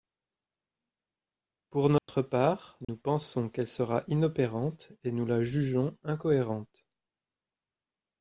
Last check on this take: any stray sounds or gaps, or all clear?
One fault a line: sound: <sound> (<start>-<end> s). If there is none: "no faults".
sound: dropout (2.0-2.1 s)
sound: dropout (2.8-2.9 s)